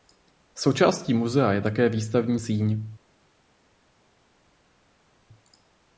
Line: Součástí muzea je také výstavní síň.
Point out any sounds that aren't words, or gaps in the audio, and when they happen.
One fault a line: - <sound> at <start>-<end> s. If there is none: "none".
none